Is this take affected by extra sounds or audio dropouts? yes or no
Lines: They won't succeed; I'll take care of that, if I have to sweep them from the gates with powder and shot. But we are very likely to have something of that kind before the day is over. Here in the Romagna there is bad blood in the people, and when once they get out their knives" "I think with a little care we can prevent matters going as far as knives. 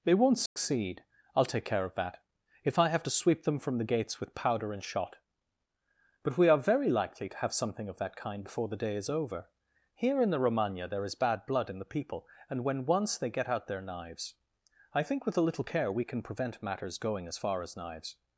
yes